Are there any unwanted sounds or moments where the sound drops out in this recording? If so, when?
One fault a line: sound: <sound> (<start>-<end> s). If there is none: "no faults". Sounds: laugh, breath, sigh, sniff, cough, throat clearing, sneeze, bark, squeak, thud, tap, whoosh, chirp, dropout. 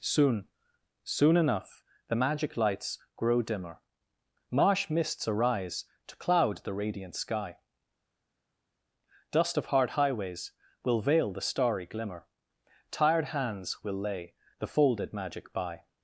no faults